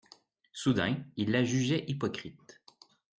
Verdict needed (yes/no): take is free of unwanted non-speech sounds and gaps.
yes